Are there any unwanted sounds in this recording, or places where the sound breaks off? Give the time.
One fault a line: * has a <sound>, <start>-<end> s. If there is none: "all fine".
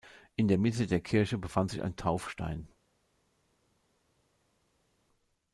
all fine